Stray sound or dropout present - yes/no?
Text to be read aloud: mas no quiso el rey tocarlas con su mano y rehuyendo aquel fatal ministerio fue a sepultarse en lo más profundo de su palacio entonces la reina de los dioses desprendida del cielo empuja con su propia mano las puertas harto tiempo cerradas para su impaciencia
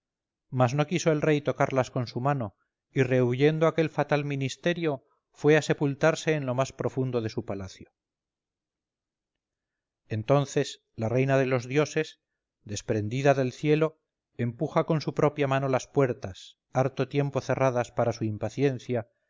no